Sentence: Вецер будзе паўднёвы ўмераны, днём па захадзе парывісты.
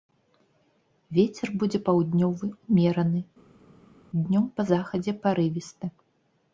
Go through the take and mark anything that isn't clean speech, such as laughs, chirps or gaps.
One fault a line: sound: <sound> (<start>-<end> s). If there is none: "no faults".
no faults